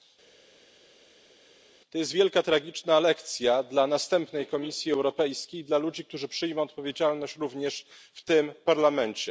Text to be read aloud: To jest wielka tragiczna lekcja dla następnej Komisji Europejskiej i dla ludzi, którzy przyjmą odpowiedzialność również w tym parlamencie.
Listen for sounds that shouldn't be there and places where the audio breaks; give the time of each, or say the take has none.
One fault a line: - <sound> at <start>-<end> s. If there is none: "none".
none